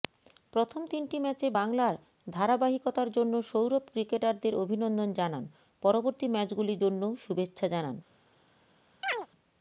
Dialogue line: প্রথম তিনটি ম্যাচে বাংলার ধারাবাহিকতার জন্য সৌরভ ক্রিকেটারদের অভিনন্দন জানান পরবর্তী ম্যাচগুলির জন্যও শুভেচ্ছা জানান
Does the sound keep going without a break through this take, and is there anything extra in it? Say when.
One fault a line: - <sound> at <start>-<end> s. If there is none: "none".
- chirp at 9.0-9.3 s